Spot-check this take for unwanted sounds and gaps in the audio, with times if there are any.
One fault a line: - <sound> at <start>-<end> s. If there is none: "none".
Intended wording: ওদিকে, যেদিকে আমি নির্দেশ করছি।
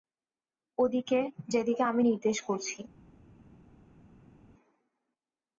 none